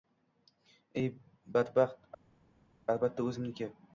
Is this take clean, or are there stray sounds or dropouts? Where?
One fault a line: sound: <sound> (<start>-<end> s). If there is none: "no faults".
no faults